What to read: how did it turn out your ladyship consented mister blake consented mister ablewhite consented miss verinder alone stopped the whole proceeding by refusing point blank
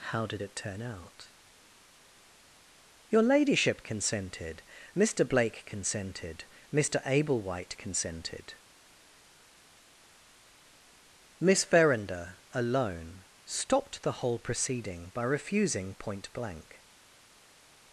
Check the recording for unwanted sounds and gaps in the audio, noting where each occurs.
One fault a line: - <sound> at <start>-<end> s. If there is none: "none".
none